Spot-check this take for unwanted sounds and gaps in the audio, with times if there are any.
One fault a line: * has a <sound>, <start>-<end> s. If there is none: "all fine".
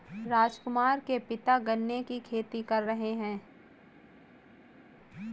all fine